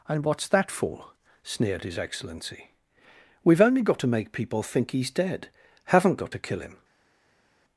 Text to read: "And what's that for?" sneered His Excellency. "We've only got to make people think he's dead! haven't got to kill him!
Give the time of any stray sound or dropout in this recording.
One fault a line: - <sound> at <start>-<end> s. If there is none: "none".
none